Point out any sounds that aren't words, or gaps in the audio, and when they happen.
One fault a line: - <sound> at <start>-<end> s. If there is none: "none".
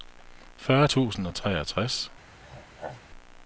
- throat clearing at 2.4-3.0 s